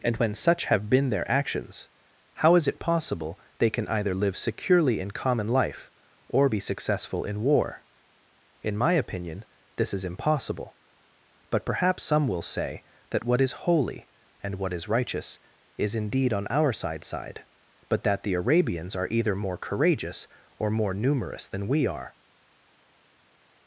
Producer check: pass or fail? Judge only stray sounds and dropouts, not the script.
pass